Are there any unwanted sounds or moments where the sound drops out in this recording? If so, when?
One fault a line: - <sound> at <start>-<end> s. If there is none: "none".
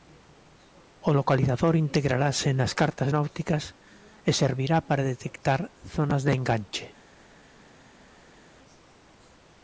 none